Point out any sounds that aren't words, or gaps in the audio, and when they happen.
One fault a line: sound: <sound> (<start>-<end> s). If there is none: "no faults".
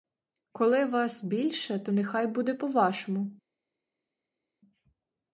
no faults